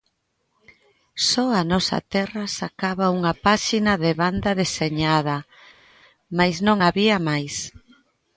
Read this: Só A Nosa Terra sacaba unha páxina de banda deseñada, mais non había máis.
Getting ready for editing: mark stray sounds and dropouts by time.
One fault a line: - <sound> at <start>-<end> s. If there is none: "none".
none